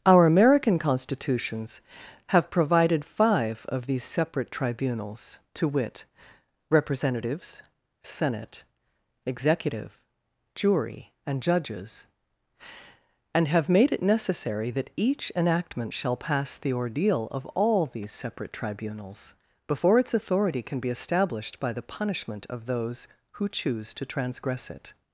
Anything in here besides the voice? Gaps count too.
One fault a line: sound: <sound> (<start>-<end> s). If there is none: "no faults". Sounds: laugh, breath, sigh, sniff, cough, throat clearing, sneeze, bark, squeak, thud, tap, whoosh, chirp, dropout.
no faults